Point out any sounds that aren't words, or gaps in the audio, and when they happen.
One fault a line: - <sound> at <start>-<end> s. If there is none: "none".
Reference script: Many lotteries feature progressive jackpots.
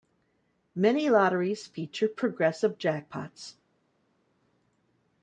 none